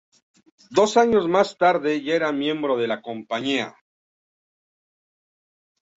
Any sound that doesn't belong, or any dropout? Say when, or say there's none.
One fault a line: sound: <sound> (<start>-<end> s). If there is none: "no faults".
no faults